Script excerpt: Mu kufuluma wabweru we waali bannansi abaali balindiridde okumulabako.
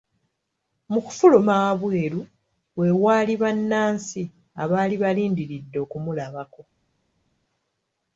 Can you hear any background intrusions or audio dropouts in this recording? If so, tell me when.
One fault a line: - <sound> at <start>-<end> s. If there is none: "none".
none